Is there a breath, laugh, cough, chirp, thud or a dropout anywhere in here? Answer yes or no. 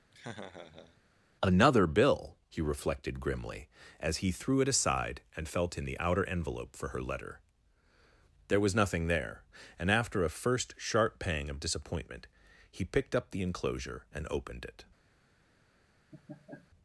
yes